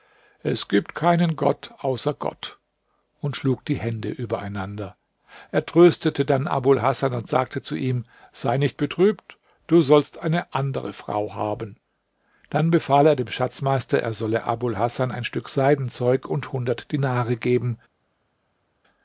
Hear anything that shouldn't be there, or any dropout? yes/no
no